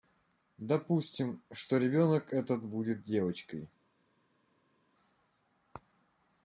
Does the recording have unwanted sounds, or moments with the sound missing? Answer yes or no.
no